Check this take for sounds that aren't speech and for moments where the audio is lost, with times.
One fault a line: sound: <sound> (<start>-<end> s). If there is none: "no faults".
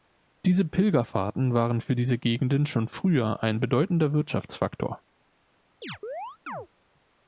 sound: chirp (5.8-6.7 s)